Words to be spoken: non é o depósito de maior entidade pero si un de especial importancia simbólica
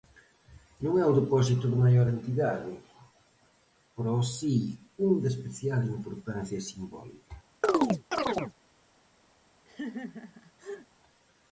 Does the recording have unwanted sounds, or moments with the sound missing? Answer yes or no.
yes